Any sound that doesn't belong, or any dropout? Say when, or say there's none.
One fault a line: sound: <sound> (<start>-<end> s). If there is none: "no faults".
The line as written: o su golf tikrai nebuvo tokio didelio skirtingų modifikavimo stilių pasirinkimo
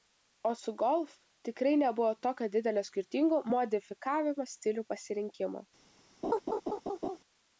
sound: laugh (6.2-7.2 s)